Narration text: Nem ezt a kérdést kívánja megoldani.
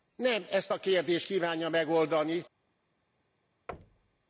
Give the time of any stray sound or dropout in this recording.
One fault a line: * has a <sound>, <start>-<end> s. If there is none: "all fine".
* has a thud, 3.7-4.3 s